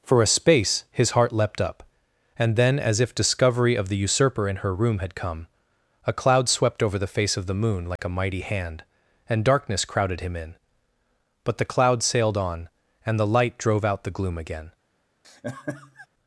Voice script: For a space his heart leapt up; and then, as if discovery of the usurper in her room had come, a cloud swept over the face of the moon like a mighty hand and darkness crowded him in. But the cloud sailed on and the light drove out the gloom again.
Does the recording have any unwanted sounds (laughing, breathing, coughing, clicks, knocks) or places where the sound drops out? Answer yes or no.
yes